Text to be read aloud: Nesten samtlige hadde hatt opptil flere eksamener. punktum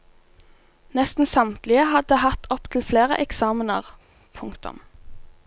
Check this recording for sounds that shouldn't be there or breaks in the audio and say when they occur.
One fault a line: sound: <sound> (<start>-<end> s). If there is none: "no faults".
no faults